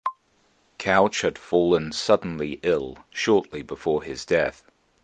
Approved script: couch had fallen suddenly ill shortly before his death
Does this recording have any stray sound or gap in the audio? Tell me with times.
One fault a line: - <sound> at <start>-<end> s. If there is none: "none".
none